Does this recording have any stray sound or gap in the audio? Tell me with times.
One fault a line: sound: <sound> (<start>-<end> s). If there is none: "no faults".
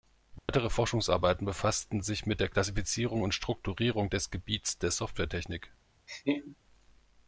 sound: dropout (0.4-0.5 s)
sound: laugh (6.1-6.6 s)